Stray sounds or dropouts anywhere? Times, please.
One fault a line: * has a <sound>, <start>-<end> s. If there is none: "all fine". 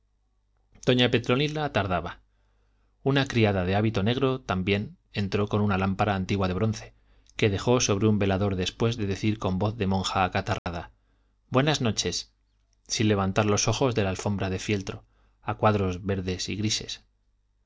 * has a dropout, 10.6-10.7 s